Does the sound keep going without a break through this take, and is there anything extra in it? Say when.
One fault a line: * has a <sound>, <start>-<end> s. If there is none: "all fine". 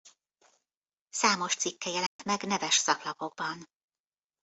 * has a dropout, 2.1-2.2 s